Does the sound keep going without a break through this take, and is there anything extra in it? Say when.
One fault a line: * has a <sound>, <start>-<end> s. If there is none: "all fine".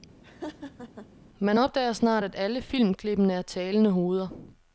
* has a laugh, 0.2-1.1 s